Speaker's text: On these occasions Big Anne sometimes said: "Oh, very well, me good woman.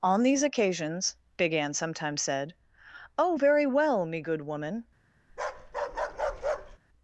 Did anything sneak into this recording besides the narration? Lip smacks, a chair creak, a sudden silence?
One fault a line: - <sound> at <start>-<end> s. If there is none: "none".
- bark at 5.3-6.8 s